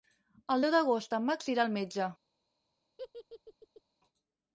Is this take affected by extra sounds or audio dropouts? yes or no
yes